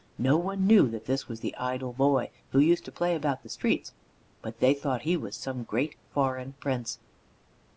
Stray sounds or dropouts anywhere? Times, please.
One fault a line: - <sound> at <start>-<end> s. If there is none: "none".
none